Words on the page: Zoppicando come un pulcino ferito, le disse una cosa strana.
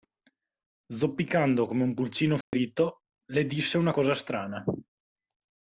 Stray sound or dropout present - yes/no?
yes